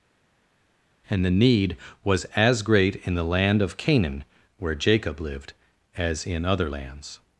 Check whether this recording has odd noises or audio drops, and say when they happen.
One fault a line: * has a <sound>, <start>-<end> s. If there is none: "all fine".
all fine